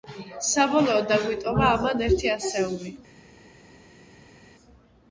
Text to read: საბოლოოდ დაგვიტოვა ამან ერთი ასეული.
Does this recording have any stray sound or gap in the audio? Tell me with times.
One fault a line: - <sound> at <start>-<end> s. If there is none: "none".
none